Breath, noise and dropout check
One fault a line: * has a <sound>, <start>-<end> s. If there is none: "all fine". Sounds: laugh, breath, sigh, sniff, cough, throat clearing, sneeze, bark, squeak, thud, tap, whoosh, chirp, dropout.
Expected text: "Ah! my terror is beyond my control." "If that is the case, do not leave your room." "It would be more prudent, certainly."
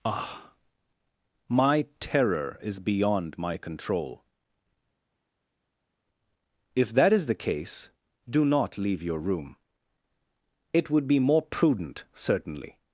all fine